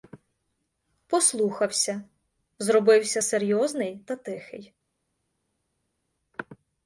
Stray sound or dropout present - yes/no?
no